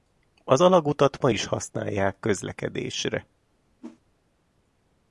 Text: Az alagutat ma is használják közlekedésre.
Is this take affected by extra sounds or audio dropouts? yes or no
yes